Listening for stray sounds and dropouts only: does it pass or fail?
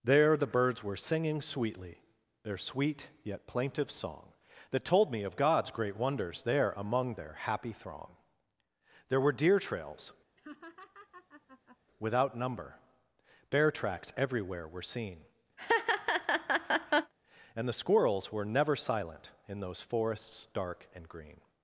fail